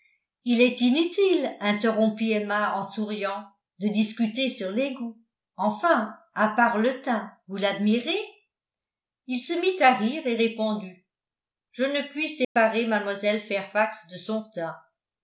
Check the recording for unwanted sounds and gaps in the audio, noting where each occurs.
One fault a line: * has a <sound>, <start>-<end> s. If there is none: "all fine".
* has a dropout, 12.4-12.6 s